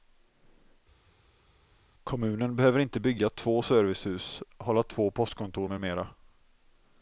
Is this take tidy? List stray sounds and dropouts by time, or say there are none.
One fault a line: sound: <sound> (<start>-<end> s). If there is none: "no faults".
no faults